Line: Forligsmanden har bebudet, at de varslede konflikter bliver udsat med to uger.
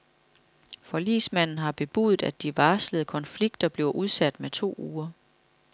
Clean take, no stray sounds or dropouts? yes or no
yes